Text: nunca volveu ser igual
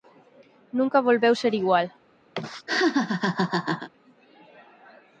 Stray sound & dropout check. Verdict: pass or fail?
fail